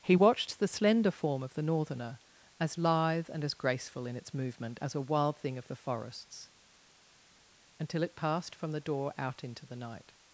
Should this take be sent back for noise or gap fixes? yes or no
no